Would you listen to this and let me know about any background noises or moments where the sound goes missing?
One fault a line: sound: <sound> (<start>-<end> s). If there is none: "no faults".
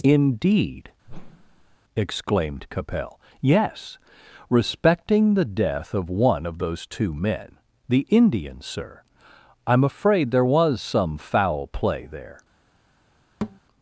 sound: whoosh (1.0-1.8 s)
sound: thud (13.4-13.6 s)